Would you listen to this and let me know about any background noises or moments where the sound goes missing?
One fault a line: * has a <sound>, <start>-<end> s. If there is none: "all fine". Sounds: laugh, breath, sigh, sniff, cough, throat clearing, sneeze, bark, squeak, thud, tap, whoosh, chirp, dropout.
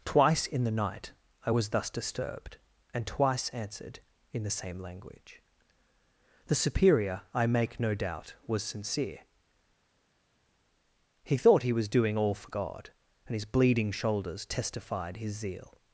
all fine